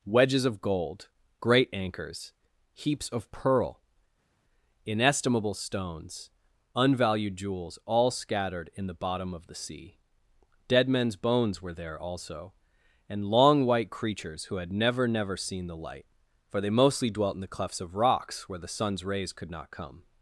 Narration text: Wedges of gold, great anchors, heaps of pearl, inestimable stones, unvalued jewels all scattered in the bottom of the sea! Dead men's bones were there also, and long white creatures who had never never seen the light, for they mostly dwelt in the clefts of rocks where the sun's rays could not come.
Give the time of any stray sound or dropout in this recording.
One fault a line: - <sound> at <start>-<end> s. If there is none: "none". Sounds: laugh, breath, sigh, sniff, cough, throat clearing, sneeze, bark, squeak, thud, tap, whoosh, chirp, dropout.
none